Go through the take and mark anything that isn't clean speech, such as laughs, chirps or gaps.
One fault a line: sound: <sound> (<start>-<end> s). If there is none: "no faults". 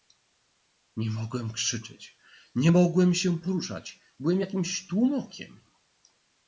no faults